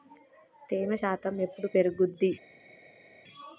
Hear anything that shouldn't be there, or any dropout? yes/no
no